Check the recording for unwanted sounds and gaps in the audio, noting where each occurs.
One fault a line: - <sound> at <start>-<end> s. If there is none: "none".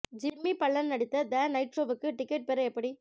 none